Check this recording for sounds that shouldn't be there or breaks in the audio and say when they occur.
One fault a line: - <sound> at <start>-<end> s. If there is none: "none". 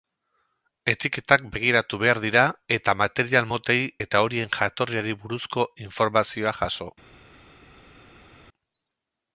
none